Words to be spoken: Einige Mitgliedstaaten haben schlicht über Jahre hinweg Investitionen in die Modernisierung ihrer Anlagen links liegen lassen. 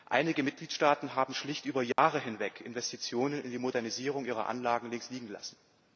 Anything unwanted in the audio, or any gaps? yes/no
yes